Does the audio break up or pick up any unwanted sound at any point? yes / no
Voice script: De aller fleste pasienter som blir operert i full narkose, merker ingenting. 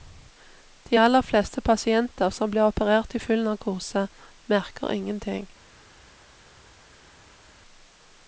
no